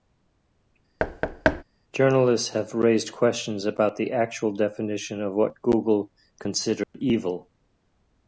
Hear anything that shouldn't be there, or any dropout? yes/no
yes